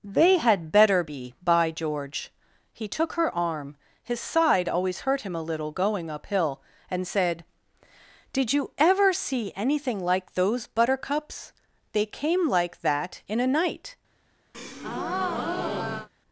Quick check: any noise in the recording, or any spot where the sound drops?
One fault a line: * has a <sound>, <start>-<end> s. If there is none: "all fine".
* has a breath, 14.5-16.1 s